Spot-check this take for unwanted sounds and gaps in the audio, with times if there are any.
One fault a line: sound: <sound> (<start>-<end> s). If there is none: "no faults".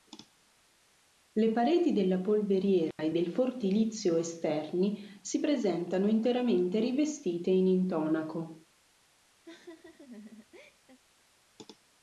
sound: dropout (2.9-3.0 s)
sound: laugh (9.4-11.0 s)